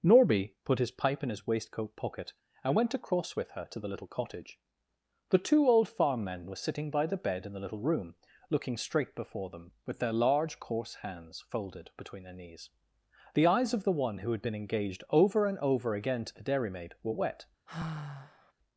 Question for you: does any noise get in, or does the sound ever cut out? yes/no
yes